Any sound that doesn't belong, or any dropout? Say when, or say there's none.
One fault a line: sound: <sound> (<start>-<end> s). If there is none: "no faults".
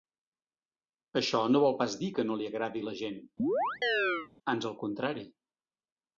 sound: chirp (3.4-4.3 s)